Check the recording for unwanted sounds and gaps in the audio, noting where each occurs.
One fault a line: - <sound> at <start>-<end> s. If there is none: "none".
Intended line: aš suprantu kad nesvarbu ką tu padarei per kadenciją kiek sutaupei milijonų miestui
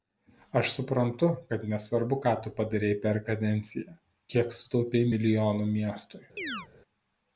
- chirp at 6.4-6.7 s